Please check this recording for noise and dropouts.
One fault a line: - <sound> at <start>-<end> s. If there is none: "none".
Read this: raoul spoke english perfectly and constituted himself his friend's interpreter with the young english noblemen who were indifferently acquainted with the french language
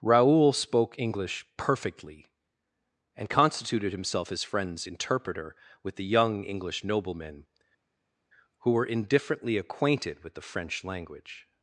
none